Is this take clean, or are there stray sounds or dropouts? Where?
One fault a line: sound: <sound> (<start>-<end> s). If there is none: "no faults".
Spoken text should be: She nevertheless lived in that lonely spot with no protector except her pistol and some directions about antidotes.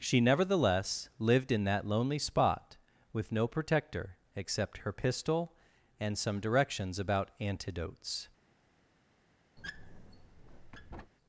sound: squeak (9.6-11.1 s)